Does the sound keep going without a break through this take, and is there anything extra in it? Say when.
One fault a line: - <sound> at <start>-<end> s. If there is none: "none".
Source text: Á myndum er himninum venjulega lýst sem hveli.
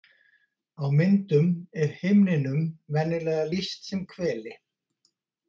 none